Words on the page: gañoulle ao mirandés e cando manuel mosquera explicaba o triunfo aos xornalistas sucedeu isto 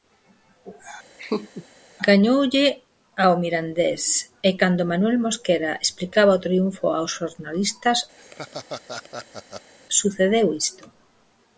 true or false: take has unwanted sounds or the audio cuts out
true